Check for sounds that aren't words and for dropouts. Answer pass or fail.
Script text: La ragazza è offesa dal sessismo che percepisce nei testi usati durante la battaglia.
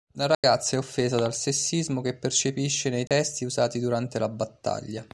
fail